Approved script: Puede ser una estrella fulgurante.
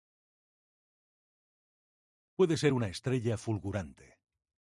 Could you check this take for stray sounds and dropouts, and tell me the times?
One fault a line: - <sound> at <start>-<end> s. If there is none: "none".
none